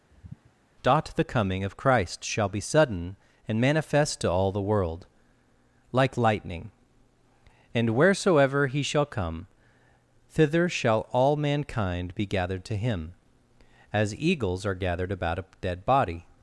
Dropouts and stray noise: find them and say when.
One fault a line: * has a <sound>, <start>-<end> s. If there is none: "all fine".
* has a sigh, 0.1-0.5 s